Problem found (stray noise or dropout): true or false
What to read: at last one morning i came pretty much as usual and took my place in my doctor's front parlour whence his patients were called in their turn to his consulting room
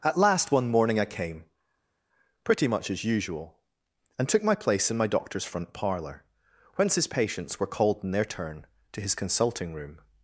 false